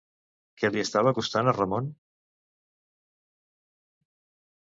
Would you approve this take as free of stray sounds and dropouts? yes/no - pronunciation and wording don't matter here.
yes